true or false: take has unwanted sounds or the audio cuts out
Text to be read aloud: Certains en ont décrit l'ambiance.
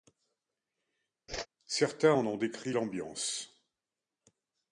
true